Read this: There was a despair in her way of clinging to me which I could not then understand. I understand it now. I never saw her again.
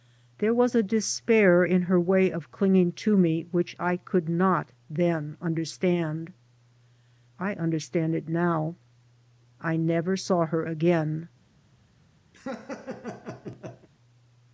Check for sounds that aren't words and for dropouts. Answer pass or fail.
fail